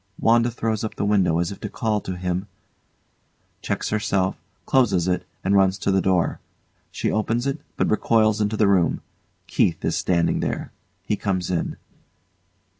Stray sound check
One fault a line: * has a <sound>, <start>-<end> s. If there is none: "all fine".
all fine